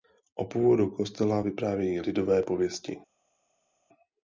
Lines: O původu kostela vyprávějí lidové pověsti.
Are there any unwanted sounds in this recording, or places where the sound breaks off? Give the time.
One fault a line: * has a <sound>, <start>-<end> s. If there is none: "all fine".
all fine